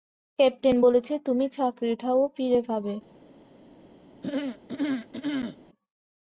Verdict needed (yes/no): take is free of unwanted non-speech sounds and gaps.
no